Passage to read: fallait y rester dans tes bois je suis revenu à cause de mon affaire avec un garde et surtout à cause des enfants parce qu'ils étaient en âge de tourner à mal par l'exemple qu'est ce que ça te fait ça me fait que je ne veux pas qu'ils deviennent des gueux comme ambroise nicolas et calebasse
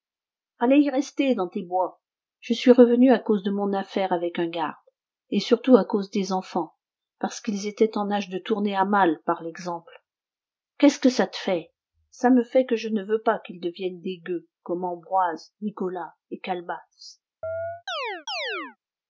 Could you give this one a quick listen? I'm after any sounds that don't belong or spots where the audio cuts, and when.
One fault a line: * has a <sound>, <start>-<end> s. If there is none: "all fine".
* has a chirp, 17.4-18.8 s